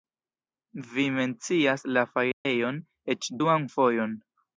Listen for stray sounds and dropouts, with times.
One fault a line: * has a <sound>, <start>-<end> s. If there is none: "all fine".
* has a dropout, 2.3-2.5 s